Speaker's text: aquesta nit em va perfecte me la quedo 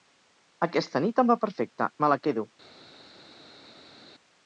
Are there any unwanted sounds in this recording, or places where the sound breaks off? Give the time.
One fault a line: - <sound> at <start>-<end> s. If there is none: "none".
none